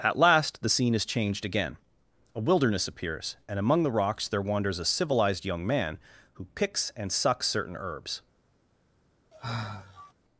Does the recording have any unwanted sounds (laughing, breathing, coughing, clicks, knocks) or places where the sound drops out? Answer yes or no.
yes